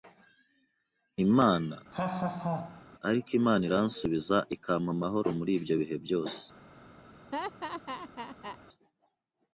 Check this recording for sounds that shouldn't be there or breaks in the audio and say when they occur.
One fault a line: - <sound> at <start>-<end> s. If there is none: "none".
- laugh at 1.9-2.8 s
- laugh at 7.3-8.6 s